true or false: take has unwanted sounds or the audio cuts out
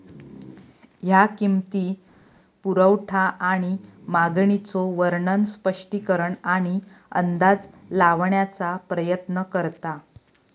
false